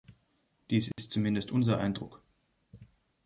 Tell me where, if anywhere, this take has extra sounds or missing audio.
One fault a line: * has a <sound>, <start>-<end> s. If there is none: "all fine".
* has a dropout, 0.9-1.0 s